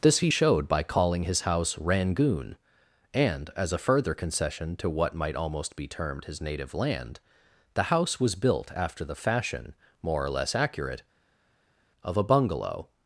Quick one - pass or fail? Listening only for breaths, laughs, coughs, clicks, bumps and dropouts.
pass